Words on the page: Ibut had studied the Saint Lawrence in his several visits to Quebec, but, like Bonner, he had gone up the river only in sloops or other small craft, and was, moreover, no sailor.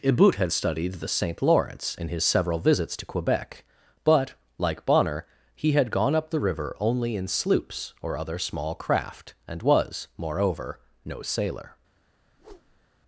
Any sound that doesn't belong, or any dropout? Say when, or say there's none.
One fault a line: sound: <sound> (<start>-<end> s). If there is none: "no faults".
sound: whoosh (12.3-12.9 s)